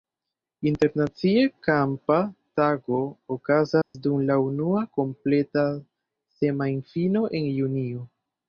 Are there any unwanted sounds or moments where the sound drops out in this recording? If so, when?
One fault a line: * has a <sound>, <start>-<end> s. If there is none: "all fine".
* has a dropout, 3.8-3.9 s